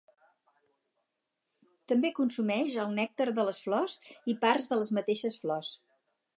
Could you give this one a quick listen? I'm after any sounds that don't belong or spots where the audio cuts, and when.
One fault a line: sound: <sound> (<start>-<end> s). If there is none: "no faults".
no faults